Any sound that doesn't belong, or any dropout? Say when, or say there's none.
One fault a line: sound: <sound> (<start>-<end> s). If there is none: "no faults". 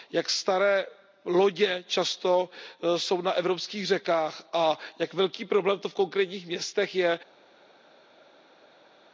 no faults